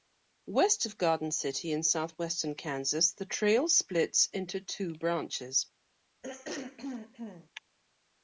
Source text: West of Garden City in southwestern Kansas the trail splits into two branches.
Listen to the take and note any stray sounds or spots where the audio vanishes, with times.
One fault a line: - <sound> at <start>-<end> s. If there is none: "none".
- throat clearing at 6.2-7.5 s